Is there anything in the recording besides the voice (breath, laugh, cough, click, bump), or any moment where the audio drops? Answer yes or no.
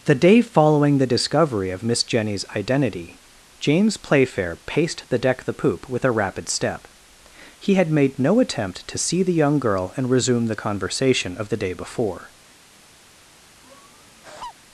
yes